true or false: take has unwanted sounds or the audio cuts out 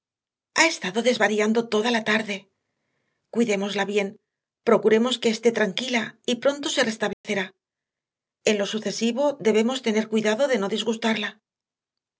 true